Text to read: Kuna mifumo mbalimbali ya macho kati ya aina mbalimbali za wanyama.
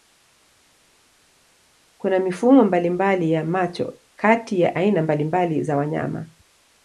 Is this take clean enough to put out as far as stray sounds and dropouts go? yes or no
yes